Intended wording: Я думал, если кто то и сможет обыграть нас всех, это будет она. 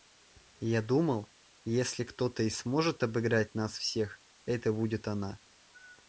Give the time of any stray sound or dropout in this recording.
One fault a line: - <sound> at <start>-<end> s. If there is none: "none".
none